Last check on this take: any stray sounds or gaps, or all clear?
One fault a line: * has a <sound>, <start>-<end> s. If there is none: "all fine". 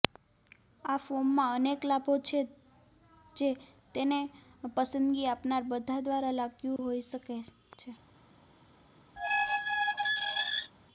* has a dropout, 6.8-6.8 s
* has a squeak, 9.2-10.7 s